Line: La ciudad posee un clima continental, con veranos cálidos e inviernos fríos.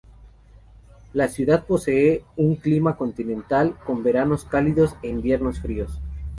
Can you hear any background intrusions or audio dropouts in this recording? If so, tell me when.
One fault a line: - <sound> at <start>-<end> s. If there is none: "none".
none